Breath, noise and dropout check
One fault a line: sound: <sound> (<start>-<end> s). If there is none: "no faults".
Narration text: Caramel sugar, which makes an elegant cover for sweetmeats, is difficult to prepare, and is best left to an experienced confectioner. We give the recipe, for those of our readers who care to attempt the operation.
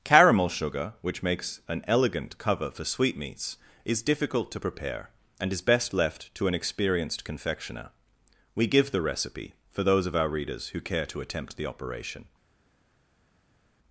no faults